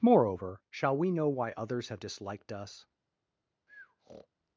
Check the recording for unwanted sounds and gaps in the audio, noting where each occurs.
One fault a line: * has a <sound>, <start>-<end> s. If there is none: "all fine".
* has a breath, 3.7-4.3 s